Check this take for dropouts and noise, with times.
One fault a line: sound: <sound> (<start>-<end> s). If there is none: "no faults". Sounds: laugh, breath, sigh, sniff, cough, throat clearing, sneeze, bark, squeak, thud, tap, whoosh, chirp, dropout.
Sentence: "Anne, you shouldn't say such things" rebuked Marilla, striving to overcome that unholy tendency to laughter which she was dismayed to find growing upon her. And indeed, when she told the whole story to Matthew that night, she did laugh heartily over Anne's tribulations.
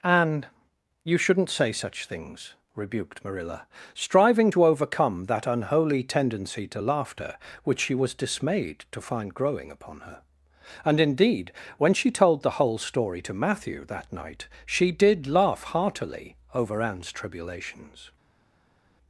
no faults